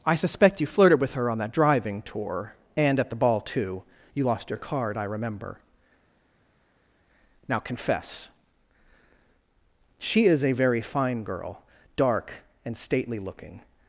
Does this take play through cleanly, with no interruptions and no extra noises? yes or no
yes